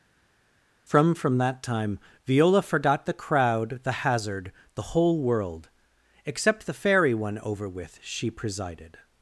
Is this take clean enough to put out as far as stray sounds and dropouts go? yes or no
yes